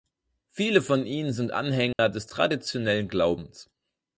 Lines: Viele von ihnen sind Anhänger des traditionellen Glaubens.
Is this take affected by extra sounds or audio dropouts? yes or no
yes